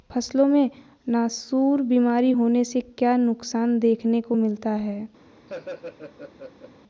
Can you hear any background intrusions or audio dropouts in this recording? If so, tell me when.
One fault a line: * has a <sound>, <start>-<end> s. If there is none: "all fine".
* has a laugh, 5.5-6.7 s